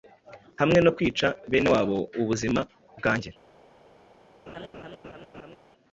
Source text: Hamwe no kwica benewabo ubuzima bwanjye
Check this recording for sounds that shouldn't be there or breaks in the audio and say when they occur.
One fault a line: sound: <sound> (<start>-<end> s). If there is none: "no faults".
sound: laugh (4.5-5.6 s)